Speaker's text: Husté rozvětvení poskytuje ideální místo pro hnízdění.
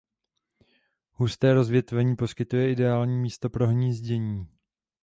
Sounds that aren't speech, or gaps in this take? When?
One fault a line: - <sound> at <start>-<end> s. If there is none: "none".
none